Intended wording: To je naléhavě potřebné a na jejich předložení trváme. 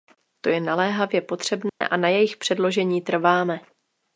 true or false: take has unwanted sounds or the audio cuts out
true